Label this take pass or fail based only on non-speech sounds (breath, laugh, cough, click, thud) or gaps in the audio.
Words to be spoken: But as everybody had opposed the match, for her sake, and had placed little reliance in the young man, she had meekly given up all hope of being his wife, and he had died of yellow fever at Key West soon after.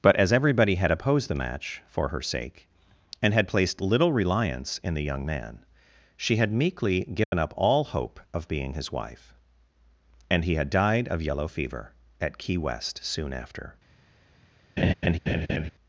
fail